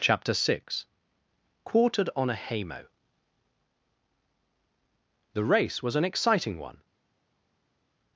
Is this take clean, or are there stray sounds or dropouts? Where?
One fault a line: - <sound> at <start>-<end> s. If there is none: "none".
none